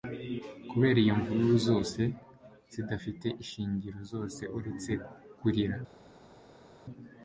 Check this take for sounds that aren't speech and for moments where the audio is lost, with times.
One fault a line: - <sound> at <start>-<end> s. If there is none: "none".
none